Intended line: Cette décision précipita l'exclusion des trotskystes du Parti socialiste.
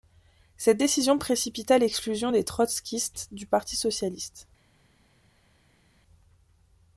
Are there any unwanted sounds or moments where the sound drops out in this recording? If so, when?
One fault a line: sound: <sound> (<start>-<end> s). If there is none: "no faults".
no faults